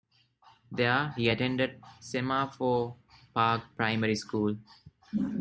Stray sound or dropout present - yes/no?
no